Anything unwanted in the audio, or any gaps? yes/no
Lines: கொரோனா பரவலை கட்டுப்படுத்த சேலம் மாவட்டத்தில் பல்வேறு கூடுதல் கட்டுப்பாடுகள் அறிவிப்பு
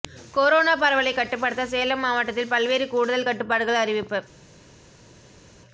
no